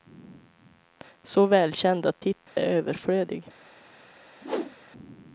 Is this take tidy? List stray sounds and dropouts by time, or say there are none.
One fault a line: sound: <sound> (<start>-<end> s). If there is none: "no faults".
sound: dropout (2.5-2.6 s)
sound: whoosh (4.4-4.8 s)